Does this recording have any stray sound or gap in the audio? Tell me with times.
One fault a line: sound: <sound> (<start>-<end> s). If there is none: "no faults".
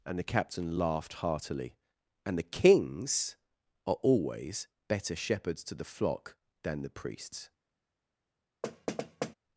sound: thud (8.6-9.3 s)